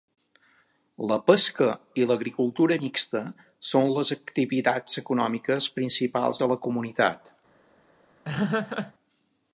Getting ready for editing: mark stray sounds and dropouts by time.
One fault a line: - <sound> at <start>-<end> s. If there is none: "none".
- laugh at 8.2-8.9 s